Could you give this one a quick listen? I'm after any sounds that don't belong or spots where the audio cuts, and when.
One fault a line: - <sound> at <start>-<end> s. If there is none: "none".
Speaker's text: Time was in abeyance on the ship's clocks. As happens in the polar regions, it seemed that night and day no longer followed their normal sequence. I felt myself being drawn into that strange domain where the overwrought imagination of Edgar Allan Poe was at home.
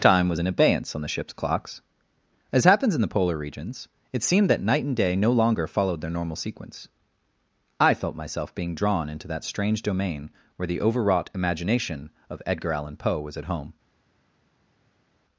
none